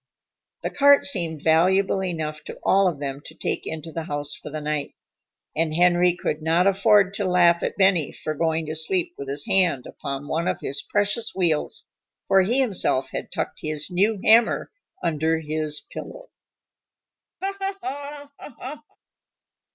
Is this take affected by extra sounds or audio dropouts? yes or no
yes